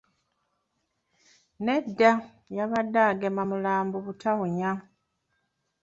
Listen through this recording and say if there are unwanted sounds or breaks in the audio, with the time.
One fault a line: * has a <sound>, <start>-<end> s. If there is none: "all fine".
all fine